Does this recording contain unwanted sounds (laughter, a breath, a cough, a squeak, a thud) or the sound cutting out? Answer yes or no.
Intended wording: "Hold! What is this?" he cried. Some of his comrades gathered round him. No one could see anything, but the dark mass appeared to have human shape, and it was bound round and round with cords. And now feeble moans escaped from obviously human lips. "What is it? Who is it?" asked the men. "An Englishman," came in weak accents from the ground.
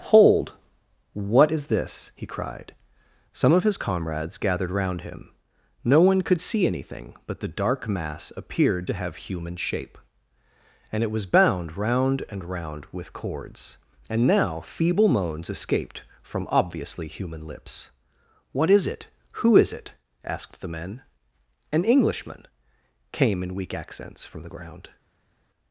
no